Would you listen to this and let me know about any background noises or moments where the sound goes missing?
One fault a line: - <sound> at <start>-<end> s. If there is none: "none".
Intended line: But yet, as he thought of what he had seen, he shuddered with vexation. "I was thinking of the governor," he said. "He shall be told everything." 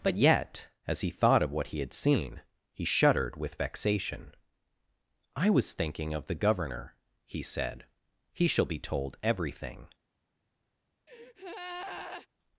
- breath at 11.1-12.3 s